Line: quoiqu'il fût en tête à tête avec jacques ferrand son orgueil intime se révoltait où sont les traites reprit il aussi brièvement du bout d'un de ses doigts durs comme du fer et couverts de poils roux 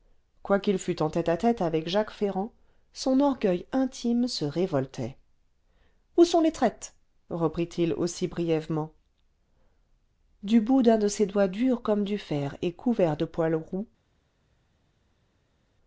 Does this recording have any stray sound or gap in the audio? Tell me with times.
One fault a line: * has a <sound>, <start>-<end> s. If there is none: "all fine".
all fine